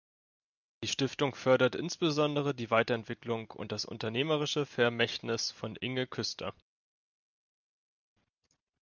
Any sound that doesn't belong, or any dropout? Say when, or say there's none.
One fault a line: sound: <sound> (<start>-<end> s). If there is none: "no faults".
no faults